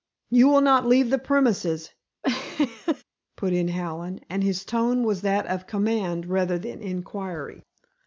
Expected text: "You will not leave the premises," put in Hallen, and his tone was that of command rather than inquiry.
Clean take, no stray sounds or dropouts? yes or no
no